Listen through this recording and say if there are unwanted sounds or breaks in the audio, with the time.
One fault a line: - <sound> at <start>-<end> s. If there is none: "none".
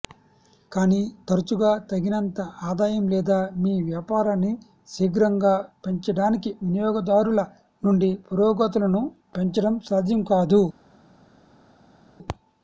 none